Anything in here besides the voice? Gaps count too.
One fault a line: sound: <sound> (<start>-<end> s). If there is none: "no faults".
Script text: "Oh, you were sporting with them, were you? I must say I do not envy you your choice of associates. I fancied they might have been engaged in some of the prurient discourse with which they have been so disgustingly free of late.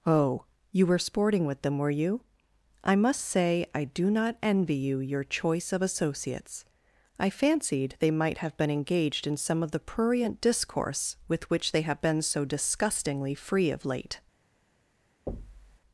sound: thud (15.3-15.8 s)